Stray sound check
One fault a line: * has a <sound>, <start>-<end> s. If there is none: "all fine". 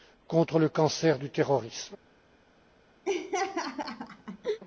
* has a laugh, 3.1-4.6 s